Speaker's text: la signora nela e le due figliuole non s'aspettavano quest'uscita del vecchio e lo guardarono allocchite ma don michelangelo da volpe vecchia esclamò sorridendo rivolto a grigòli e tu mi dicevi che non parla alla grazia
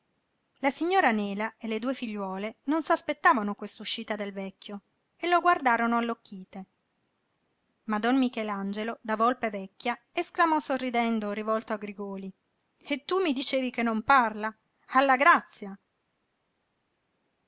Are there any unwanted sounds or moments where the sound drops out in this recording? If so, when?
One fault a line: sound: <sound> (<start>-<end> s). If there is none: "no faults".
no faults